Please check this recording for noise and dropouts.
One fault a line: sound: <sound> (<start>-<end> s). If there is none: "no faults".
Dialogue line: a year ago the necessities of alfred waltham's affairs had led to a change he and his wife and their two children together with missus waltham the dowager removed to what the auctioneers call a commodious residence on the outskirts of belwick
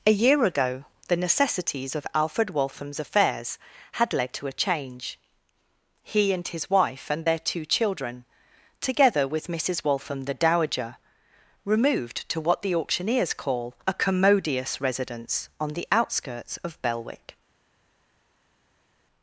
no faults